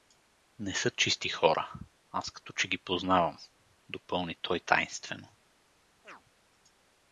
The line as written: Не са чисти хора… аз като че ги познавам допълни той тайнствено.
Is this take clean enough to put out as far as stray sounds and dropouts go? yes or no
no